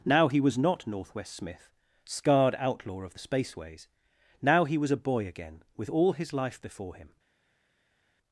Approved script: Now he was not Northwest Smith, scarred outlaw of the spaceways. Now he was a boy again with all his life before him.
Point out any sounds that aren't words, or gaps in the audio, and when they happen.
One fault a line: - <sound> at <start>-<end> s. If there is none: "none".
none